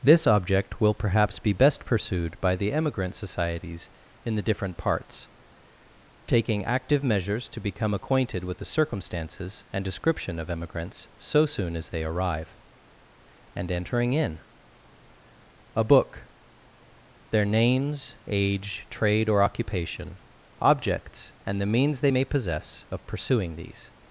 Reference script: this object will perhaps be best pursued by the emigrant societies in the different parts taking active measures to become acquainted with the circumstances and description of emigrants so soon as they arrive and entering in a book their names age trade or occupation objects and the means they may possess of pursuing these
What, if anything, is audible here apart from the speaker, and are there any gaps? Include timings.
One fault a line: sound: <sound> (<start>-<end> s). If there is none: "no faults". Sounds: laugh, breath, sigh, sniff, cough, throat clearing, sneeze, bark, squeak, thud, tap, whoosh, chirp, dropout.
no faults